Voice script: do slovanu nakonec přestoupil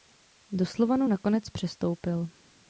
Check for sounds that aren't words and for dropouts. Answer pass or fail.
pass